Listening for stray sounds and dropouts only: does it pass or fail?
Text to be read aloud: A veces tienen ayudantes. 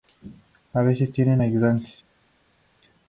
pass